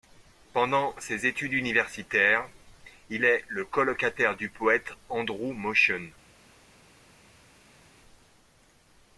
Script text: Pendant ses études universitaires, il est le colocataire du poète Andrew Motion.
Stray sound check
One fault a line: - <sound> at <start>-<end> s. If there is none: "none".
none